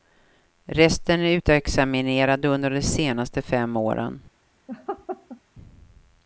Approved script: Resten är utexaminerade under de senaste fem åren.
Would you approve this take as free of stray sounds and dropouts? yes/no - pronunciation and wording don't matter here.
no